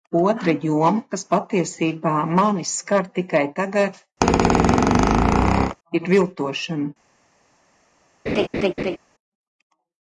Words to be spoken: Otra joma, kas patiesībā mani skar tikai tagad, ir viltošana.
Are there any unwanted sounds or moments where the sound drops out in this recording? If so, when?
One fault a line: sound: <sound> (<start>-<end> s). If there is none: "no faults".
sound: squeak (4.2-5.8 s)
sound: laugh (8.3-9.0 s)